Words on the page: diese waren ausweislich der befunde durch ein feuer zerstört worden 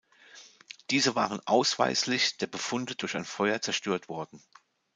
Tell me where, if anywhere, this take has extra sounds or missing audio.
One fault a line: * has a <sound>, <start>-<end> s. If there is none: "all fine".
all fine